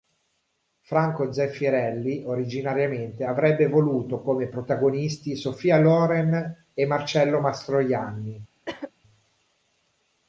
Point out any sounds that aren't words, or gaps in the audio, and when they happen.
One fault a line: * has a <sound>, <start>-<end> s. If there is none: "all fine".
* has a cough, 8.7-8.9 s